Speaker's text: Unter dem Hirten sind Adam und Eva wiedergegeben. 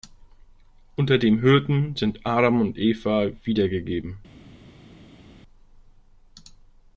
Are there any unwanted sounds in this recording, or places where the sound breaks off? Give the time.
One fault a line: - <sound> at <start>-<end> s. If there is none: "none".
none